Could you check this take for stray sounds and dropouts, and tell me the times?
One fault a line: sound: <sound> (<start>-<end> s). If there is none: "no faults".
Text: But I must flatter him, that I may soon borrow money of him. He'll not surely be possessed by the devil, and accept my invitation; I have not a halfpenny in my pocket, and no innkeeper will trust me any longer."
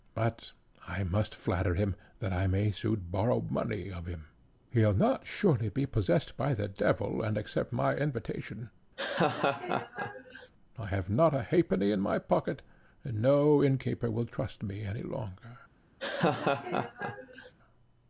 sound: laugh (9.0-10.5 s)
sound: laugh (16.0-17.5 s)